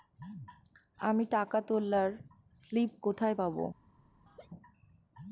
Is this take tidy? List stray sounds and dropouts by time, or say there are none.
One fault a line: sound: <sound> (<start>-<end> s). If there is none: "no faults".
sound: laugh (4.3-4.5 s)